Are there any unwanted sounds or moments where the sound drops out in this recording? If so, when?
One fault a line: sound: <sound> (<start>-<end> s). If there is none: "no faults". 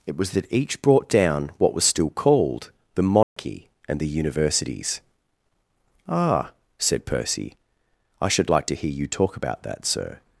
sound: dropout (3.2-3.4 s)